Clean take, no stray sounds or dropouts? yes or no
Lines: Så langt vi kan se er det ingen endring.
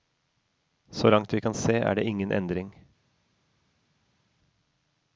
yes